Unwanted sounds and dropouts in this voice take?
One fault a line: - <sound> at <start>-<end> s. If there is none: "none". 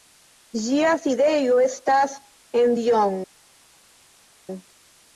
none